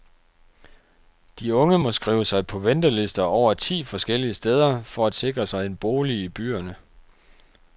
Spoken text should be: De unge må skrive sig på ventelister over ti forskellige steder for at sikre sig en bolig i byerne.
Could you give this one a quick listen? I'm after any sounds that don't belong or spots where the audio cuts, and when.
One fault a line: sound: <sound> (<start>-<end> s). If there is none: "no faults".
no faults